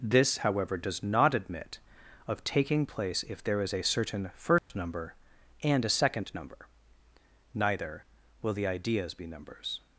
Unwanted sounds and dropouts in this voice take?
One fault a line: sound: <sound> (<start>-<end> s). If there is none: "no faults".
sound: dropout (4.6-4.7 s)